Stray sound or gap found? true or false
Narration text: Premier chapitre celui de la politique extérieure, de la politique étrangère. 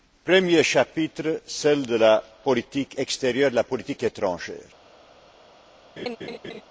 true